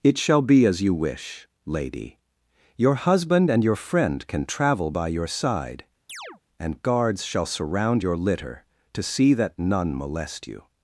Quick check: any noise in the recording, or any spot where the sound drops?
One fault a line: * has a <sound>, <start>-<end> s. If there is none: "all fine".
* has a chirp, 6.1-6.4 s